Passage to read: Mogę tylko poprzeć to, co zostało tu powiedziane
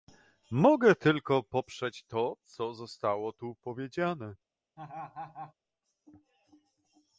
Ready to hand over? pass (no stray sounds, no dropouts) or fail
fail